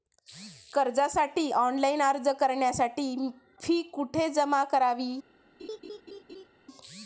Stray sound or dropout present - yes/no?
yes